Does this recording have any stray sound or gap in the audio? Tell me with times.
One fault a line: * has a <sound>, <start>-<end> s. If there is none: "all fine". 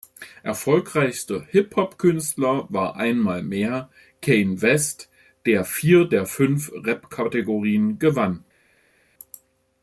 all fine